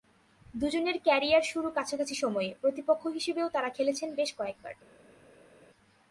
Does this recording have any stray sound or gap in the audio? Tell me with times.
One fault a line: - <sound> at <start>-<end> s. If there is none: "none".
none